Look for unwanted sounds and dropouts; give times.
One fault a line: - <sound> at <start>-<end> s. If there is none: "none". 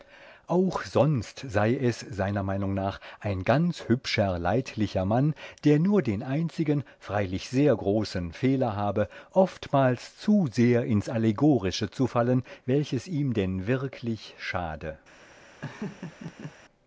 - laugh at 15.6-16.5 s